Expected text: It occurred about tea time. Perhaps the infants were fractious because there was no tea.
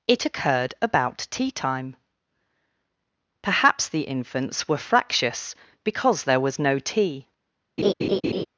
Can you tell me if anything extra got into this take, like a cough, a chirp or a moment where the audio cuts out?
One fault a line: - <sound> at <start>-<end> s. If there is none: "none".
- laugh at 7.8-8.5 s